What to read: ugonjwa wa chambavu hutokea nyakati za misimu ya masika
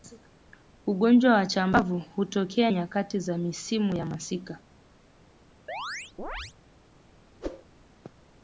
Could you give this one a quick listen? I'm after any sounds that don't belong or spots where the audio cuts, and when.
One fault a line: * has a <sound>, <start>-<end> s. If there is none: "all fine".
* has a chirp, 5.7-6.5 s
* has a whoosh, 7.4-7.7 s